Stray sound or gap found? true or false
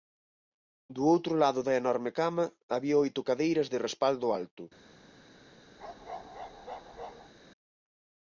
true